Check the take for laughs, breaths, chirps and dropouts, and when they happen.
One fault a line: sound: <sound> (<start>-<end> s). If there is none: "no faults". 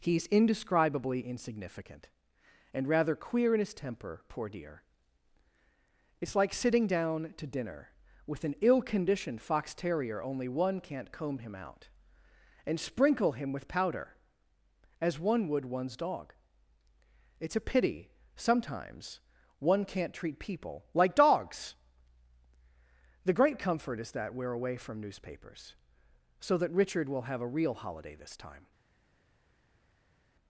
no faults